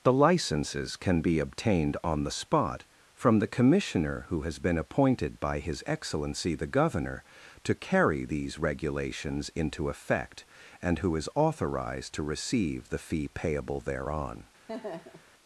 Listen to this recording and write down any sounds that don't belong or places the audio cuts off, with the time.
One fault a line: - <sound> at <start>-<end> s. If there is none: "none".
- laugh at 14.7-15.3 s